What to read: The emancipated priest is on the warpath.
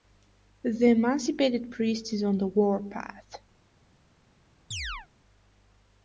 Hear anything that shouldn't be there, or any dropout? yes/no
yes